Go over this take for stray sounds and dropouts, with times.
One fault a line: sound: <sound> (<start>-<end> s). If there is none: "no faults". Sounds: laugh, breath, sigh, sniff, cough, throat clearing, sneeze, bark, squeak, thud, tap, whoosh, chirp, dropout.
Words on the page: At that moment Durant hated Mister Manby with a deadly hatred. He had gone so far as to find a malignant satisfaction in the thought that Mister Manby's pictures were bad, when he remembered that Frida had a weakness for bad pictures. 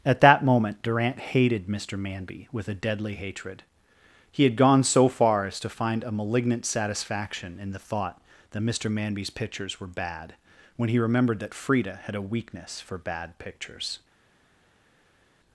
no faults